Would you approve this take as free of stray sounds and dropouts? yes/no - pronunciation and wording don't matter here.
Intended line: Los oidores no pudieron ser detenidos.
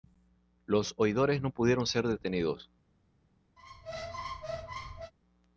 no